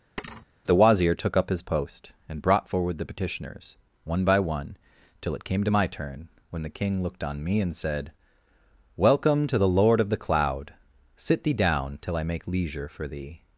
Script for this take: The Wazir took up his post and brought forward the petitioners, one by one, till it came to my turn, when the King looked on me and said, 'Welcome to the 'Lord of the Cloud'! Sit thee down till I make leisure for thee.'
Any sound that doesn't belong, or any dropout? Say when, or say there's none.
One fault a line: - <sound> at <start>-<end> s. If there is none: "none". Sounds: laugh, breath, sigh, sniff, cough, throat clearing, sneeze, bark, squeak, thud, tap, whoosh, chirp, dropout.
- thud at 0.2-0.5 s